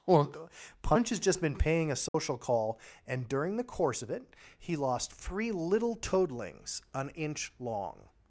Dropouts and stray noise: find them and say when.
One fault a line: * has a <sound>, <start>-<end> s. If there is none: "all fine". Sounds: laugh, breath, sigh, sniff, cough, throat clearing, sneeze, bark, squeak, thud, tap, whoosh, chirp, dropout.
* has a dropout, 2.1-2.1 s